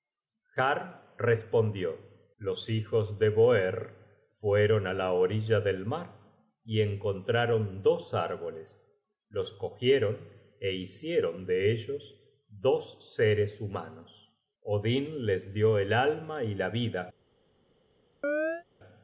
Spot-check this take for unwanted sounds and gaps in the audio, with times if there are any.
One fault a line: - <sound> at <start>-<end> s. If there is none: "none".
- chirp at 18.2-18.6 s